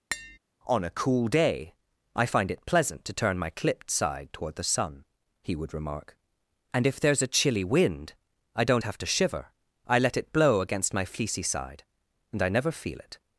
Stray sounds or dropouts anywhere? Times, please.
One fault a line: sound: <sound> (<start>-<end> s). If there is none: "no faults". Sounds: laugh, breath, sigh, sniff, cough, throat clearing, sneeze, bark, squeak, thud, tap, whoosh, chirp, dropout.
sound: tap (0.1-0.4 s)